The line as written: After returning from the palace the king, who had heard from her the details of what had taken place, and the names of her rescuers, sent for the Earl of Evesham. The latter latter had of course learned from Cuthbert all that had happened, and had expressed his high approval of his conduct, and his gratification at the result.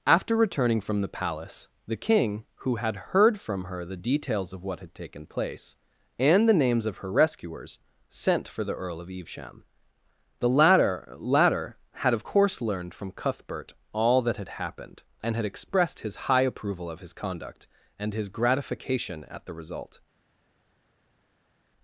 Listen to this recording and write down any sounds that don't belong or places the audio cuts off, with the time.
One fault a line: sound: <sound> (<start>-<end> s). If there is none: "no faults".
no faults